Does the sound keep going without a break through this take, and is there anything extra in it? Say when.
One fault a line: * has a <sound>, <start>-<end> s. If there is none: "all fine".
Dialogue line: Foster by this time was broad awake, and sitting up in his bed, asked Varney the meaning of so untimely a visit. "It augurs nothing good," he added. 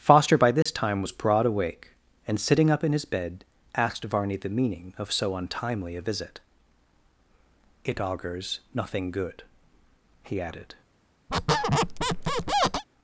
* has a dropout, 0.6-0.7 s
* has a squeak, 11.3-12.8 s